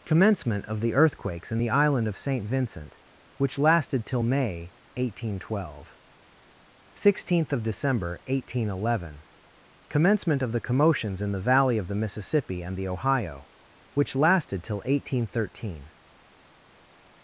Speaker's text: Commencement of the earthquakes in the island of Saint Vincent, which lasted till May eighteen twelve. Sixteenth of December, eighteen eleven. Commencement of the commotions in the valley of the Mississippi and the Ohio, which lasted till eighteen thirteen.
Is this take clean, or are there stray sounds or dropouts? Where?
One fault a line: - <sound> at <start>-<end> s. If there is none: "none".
none